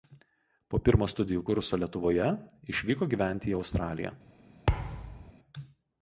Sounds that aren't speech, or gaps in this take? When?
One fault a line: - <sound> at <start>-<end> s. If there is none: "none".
- thud at 4.7-5.3 s